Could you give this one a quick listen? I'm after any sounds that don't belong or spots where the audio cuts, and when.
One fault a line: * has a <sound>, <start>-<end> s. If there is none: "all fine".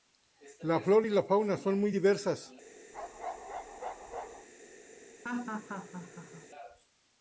* has a bark, 2.9-4.5 s
* has a laugh, 5.2-6.5 s